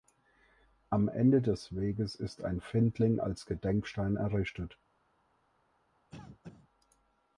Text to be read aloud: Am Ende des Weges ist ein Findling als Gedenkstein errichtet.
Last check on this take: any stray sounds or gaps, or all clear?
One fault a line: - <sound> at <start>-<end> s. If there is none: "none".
- cough at 6.1-6.7 s